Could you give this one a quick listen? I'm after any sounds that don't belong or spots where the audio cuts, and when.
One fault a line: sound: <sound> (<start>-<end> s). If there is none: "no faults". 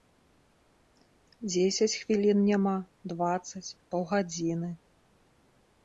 no faults